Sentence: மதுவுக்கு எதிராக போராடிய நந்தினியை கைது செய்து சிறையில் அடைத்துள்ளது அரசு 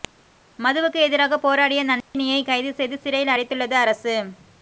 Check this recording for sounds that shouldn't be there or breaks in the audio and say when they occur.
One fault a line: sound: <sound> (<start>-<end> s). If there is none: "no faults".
sound: dropout (2.0-2.1 s)